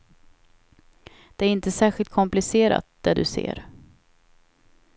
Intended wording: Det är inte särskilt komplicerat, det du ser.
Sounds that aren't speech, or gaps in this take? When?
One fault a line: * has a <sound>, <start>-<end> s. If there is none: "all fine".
all fine